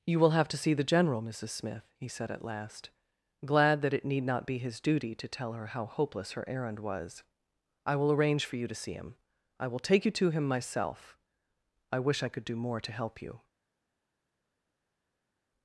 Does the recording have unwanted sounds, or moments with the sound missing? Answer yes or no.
no